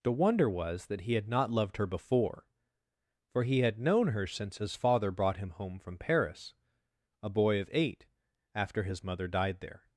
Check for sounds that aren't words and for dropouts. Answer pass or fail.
pass